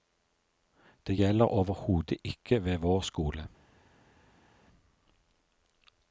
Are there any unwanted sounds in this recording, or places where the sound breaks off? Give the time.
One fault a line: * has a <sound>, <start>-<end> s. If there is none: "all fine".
all fine